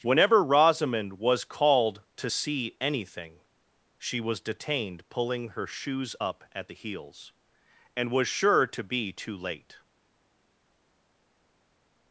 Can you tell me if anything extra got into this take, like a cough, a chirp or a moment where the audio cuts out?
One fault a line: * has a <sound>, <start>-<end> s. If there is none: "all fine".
all fine